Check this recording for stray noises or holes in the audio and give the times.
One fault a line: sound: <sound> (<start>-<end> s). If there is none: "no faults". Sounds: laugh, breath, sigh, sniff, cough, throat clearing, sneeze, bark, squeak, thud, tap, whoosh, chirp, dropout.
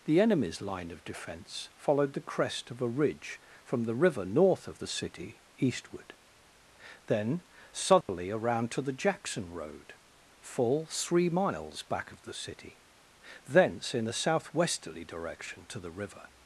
sound: dropout (8.0-8.1 s)